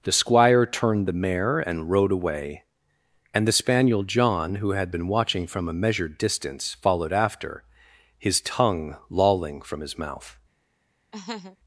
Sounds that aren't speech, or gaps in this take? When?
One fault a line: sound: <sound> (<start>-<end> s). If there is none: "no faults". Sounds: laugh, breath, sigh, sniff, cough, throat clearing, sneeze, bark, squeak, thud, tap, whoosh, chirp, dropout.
sound: laugh (11.1-11.6 s)